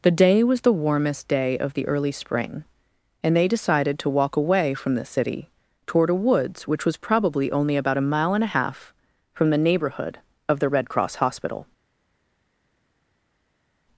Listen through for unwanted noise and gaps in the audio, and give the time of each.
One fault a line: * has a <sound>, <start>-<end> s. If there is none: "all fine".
all fine